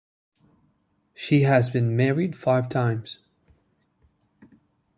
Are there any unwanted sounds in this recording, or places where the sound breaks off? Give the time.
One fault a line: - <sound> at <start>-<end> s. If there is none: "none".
none